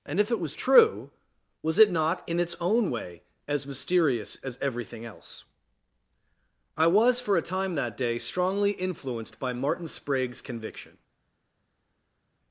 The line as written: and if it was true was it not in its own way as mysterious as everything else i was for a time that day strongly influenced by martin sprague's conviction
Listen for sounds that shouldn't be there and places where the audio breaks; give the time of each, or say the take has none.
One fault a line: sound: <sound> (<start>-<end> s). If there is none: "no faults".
no faults